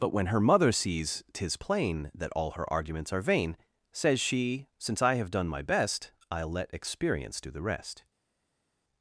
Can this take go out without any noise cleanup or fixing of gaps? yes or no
yes